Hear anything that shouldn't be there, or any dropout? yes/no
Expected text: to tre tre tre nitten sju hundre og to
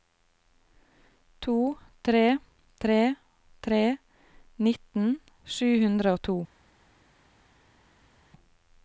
no